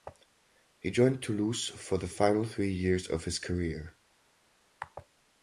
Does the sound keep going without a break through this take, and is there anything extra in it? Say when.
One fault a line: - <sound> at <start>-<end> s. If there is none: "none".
none